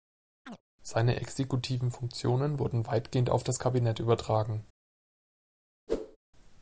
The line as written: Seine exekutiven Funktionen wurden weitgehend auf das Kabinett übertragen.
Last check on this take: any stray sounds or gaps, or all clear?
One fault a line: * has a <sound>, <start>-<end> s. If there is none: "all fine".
* has a chirp, 0.5-0.6 s
* has a whoosh, 5.9-6.2 s